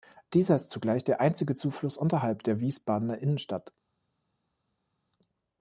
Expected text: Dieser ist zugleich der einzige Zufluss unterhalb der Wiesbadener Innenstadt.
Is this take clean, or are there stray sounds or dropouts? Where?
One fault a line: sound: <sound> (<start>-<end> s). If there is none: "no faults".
no faults